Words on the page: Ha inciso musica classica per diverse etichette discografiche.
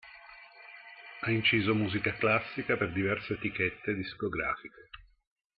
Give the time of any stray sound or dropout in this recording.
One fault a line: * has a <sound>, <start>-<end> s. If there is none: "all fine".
all fine